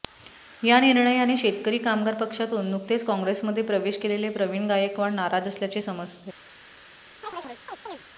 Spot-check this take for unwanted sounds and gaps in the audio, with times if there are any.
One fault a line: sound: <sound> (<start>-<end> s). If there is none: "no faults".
sound: chirp (7.2-8.0 s)